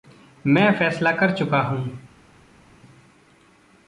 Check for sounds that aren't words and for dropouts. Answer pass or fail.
pass